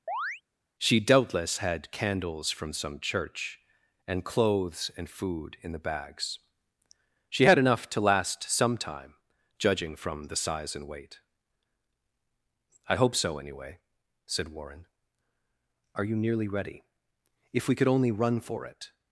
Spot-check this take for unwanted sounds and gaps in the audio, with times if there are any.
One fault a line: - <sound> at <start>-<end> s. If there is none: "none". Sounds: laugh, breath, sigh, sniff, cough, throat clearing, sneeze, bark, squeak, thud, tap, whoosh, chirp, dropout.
- chirp at 0.1-0.4 s